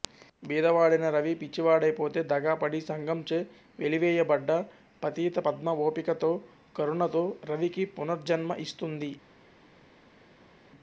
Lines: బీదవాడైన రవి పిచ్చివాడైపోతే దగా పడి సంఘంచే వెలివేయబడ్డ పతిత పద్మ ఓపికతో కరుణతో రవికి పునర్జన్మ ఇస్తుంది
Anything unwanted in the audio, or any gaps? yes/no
no